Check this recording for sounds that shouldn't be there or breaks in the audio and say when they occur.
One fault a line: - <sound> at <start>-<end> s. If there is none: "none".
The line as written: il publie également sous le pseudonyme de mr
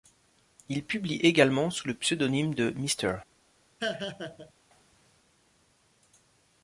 - laugh at 3.8-4.5 s